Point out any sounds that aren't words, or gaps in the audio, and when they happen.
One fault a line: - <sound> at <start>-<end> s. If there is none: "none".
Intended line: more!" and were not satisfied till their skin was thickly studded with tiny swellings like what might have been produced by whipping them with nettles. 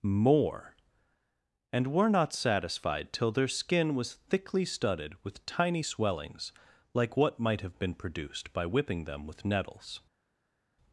none